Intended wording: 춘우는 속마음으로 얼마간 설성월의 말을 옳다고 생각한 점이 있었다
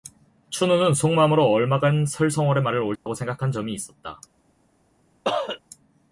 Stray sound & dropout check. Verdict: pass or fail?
fail